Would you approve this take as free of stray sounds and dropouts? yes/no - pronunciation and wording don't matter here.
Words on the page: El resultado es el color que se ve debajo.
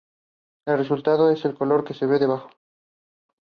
yes